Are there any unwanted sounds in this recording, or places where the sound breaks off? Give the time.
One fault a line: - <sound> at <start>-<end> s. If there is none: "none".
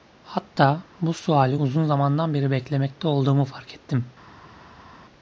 none